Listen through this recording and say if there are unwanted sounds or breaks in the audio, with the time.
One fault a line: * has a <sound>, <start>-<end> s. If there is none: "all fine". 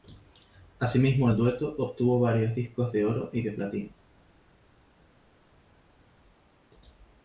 all fine